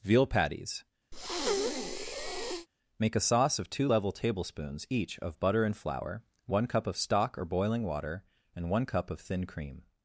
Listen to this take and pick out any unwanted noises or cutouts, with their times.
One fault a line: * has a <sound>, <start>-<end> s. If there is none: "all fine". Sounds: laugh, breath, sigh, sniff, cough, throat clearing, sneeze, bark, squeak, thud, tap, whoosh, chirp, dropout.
* has a breath, 1.1-2.7 s